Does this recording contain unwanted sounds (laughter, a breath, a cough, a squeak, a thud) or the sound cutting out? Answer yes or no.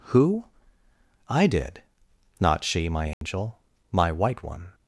yes